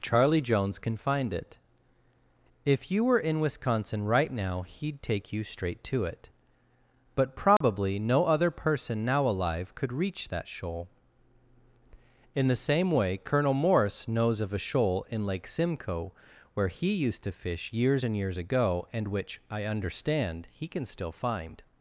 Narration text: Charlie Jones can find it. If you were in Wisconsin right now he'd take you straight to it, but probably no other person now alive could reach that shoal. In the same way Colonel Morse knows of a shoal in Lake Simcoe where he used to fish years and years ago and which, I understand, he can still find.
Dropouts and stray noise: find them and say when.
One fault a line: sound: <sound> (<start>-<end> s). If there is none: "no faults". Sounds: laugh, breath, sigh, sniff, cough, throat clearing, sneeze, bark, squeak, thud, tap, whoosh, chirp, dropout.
sound: dropout (7.6-7.6 s)